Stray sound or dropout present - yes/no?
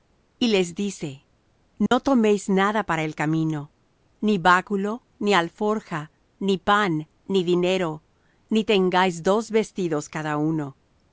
yes